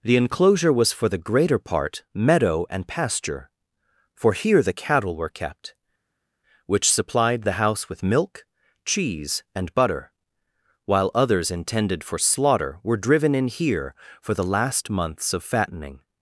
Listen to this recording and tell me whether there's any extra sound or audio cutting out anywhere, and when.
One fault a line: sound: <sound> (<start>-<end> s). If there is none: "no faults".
no faults